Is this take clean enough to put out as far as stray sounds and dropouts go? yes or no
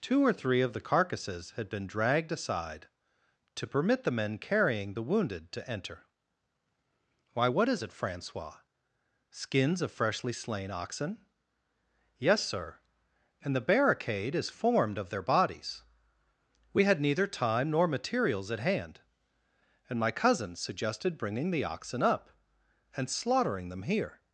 yes